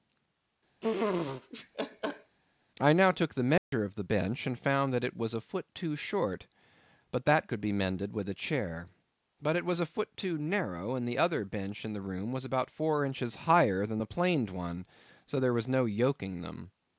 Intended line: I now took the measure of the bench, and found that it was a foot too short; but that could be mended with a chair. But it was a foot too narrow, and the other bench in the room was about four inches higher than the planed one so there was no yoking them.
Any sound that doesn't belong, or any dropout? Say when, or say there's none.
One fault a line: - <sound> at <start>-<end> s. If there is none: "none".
- laugh at 0.8-2.4 s
- dropout at 3.6-3.7 s